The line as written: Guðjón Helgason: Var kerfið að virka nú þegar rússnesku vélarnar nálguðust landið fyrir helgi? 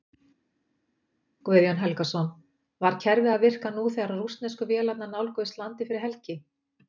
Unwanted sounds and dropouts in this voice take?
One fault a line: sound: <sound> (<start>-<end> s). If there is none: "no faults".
no faults